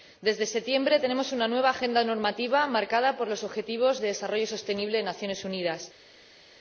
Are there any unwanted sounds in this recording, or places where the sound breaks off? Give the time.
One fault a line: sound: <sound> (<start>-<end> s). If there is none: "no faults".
no faults